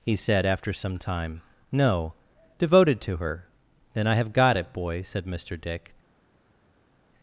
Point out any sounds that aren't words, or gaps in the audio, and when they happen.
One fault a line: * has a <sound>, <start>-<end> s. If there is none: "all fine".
all fine